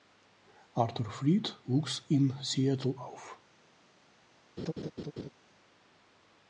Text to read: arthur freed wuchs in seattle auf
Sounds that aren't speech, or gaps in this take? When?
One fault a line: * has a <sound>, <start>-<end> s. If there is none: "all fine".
* has a laugh, 4.6-5.3 s